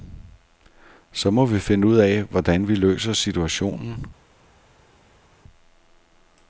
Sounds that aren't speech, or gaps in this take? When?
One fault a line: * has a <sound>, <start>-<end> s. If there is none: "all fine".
all fine